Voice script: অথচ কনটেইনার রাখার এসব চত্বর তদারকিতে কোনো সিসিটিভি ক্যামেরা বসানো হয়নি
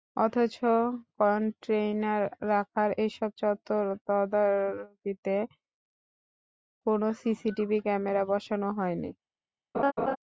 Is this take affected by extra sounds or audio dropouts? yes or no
yes